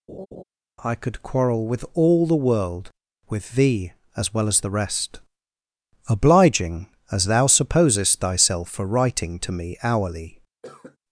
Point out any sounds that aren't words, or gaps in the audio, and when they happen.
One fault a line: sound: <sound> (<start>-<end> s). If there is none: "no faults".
sound: laugh (0.1-0.4 s)
sound: cough (10.6-11.0 s)